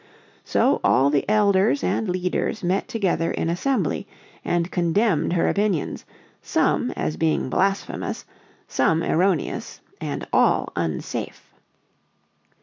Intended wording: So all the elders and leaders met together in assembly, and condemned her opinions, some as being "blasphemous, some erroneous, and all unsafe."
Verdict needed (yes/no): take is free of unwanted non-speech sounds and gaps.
yes